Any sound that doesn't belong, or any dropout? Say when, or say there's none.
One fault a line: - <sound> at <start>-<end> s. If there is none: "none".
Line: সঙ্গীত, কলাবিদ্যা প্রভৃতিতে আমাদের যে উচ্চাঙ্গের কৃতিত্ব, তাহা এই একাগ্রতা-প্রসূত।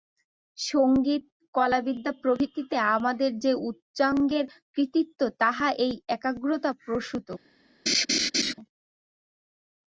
- laugh at 7.9-8.5 s